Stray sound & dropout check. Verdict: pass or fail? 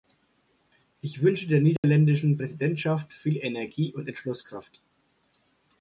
fail